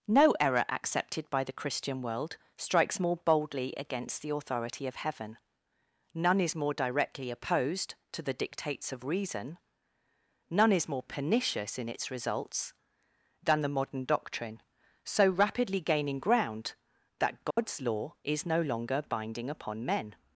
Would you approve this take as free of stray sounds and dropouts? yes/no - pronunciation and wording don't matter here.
no